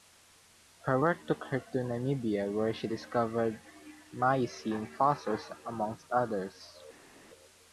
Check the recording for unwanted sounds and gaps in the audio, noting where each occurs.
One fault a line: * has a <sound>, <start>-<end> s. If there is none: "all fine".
all fine